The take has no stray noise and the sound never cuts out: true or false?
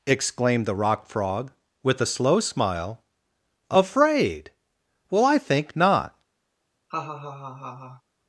false